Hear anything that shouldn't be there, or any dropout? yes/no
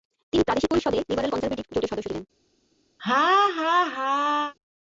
yes